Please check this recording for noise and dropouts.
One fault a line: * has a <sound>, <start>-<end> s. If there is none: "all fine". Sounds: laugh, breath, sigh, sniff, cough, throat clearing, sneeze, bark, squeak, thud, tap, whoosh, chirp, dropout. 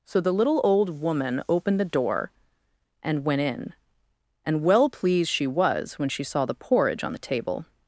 all fine